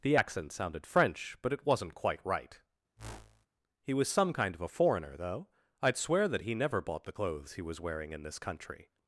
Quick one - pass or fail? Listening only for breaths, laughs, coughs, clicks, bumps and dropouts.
fail